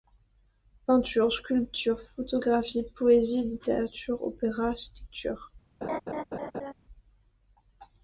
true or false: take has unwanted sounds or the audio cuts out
true